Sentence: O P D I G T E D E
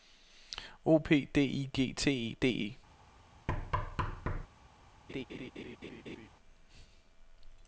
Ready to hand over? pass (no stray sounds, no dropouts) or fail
fail